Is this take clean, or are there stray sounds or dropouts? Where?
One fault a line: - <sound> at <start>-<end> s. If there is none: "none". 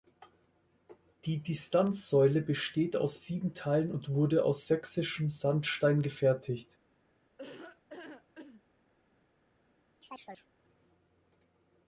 - laugh at 7.4-8.6 s
- chirp at 10.0-10.5 s